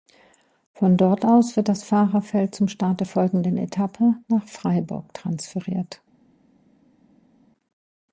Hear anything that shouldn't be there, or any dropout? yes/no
no